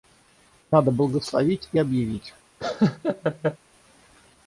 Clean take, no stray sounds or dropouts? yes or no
no